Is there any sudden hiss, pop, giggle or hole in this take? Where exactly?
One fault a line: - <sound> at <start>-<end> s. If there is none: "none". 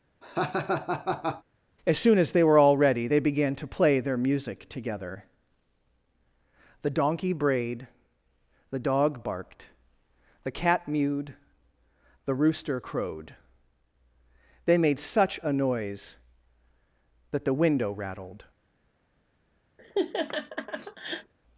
- laugh at 0.2-1.4 s
- laugh at 19.8-21.3 s